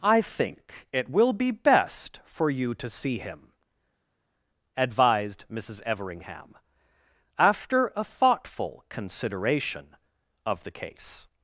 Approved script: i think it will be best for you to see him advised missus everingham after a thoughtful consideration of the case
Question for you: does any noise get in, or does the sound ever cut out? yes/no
no